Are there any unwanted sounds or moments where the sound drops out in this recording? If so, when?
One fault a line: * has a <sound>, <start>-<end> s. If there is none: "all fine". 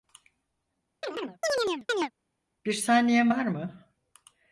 * has a chirp, 1.0-2.1 s